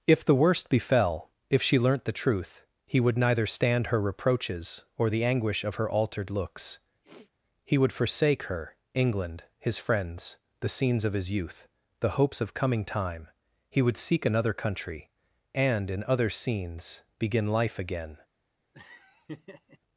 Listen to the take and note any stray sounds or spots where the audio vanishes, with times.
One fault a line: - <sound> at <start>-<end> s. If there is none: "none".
- sniff at 7.0-7.3 s
- laugh at 18.7-19.8 s